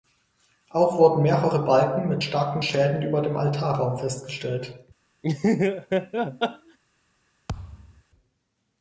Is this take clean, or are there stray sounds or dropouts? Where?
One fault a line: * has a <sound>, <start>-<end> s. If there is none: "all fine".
* has a laugh, 5.2-6.8 s
* has a thud, 7.5-8.0 s